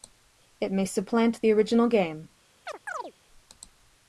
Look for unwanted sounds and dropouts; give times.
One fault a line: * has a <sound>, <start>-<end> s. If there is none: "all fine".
* has a chirp, 2.7-3.1 s